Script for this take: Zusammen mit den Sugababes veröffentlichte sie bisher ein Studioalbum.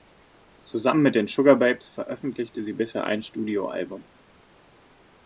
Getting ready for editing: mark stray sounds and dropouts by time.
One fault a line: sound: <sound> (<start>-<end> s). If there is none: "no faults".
no faults